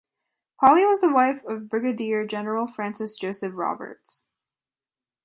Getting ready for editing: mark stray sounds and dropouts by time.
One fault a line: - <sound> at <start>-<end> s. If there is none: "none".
none